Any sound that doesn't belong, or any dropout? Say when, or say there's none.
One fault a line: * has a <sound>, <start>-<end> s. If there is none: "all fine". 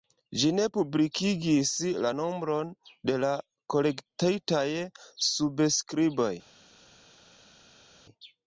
all fine